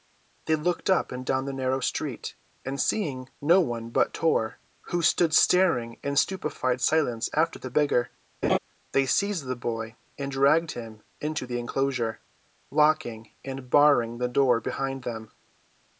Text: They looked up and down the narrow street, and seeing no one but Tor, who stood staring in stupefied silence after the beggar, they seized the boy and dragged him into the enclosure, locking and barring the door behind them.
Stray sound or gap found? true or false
true